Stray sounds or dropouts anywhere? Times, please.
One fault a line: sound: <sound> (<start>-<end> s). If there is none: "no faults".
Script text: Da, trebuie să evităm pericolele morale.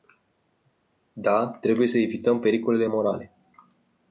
no faults